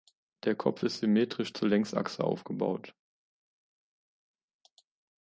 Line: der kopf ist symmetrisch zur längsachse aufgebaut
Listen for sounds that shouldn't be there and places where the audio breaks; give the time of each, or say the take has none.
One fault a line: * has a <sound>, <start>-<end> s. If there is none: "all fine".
all fine